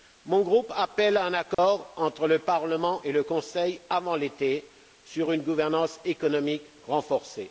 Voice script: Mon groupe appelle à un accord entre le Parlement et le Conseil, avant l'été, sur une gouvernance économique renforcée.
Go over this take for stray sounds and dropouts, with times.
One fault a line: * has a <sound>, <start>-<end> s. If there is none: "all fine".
* has a dropout, 1.5-1.6 s